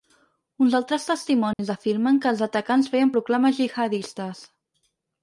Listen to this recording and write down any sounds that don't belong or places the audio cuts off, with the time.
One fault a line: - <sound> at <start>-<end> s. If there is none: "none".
- dropout at 1.5-1.6 s